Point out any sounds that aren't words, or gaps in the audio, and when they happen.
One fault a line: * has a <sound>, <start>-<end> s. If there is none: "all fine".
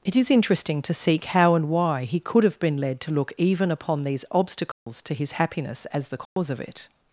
* has a dropout, 4.7-4.9 s
* has a dropout, 6.3-6.4 s